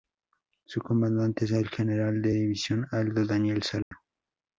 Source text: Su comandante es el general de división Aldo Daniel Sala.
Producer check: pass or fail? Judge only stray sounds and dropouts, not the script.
fail